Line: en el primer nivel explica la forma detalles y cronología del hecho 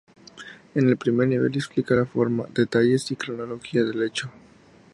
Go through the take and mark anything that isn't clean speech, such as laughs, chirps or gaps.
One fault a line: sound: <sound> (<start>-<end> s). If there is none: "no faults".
no faults